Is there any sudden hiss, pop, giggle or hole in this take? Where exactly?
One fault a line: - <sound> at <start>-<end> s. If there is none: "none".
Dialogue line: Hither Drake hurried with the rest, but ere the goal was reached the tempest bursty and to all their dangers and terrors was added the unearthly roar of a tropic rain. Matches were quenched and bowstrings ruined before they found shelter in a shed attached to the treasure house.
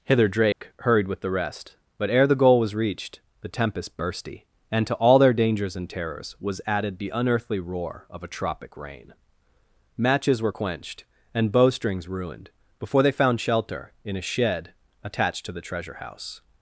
- dropout at 0.5-0.6 s